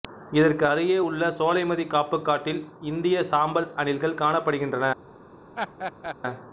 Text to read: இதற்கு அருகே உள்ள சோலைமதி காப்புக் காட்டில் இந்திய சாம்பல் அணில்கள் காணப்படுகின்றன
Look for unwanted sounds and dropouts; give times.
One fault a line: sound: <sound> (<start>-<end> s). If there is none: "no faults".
sound: laugh (5.6-6.2 s)